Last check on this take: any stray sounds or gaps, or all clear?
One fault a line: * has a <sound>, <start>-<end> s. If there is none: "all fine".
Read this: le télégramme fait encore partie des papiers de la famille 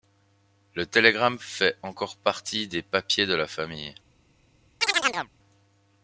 * has a chirp, 4.8-5.3 s